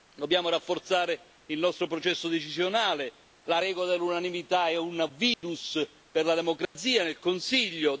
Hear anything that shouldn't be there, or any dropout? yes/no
yes